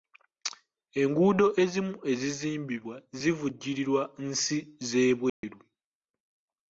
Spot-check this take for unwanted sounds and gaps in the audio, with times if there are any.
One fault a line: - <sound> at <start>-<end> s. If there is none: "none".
- dropout at 5.3-5.4 s